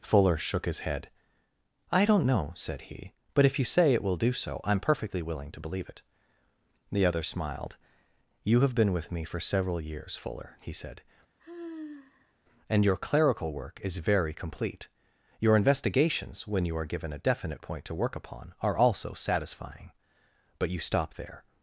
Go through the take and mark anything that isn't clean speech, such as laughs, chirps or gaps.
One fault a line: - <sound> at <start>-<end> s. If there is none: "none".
- sigh at 11.4-12.3 s